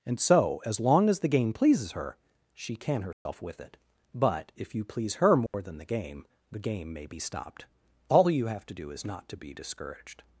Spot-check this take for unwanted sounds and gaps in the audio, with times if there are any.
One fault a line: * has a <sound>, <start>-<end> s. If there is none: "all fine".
* has a dropout, 3.1-3.3 s
* has a dropout, 5.5-5.5 s